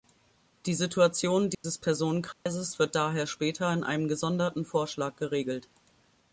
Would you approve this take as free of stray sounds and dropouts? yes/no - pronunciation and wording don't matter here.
no